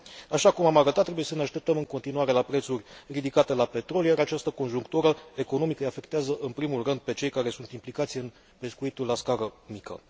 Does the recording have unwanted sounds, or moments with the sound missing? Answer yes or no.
no